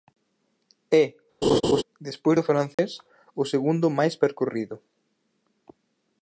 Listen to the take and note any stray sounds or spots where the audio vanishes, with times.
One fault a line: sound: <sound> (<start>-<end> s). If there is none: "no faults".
sound: laugh (1.4-1.8 s)
sound: dropout (2.7-2.8 s)